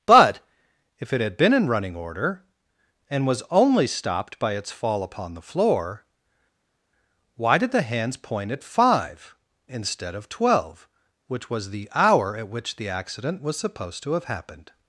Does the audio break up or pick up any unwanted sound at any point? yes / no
no